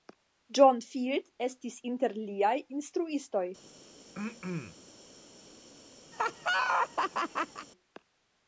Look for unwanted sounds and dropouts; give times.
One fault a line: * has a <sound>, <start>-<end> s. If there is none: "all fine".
* has a throat clearing, 4.1-4.8 s
* has a laugh, 6.1-7.7 s